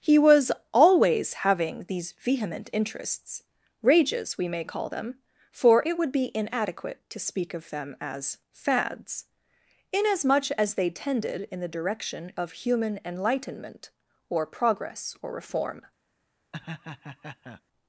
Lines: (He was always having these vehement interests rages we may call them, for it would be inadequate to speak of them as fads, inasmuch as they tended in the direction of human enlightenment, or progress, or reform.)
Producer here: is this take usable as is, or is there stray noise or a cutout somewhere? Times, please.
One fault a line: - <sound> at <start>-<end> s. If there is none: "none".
- laugh at 16.5-17.6 s